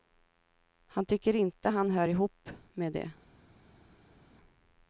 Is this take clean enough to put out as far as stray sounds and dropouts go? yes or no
yes